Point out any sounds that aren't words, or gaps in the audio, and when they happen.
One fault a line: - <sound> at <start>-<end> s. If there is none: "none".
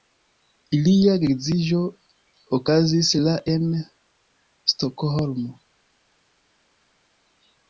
none